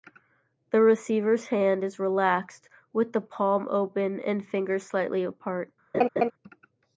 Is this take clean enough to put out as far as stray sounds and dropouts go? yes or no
no